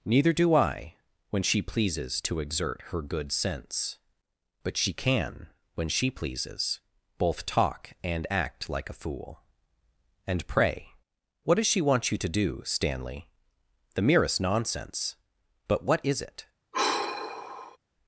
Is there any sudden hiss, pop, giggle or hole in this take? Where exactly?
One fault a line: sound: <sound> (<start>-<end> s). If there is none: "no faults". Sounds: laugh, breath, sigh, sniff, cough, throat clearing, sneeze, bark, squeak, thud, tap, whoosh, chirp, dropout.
sound: sigh (16.7-17.8 s)